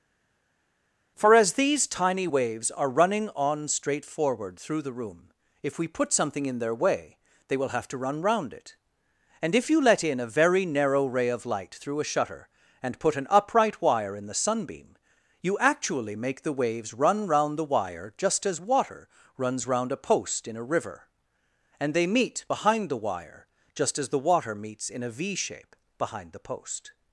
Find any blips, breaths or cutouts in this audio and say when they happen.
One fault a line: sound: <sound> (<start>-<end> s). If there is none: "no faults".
no faults